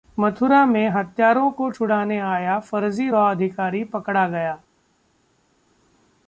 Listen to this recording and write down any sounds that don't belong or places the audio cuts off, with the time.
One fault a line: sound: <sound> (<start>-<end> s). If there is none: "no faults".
no faults